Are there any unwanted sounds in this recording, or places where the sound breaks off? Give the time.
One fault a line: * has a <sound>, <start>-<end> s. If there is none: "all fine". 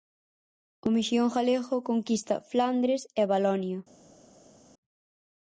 all fine